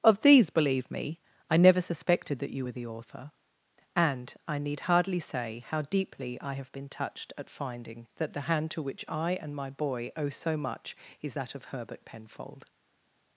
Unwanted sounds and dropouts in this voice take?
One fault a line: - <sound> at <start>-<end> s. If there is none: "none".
none